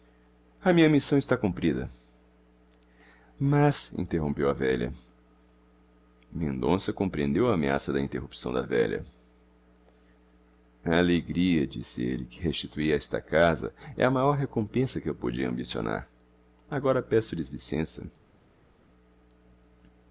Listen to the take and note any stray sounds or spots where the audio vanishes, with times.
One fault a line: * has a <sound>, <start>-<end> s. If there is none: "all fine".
all fine